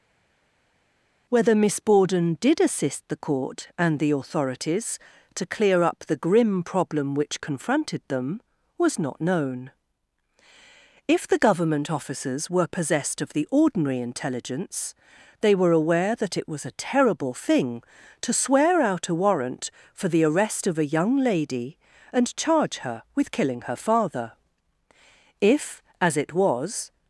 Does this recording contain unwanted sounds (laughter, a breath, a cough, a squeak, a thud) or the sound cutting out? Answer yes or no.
no